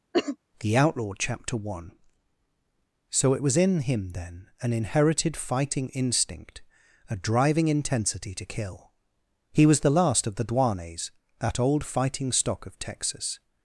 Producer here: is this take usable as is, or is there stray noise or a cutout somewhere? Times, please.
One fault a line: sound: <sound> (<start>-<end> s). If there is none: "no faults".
sound: cough (0.1-0.4 s)